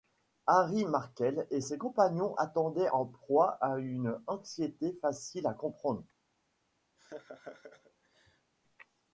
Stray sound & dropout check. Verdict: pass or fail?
fail